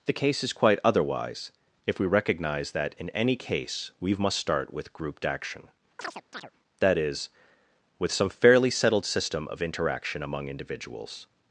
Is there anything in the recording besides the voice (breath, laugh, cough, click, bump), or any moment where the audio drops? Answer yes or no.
yes